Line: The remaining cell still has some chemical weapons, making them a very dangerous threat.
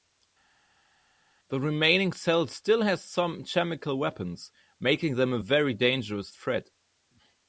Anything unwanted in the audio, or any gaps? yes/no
no